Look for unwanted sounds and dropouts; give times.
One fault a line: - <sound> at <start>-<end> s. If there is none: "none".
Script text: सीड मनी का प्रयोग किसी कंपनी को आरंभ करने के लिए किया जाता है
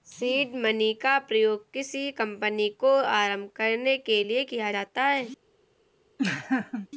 - laugh at 6.2-6.9 s